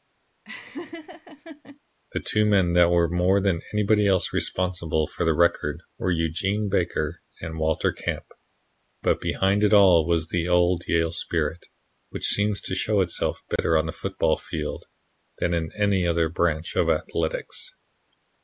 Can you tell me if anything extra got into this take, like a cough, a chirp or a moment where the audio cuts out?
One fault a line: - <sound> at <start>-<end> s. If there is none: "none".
- laugh at 0.4-1.8 s
- dropout at 13.6-13.6 s